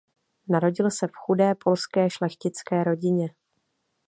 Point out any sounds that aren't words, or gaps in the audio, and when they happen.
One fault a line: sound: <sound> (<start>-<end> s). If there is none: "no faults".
no faults